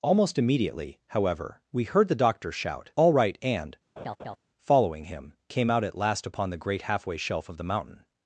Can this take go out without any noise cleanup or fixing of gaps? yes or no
no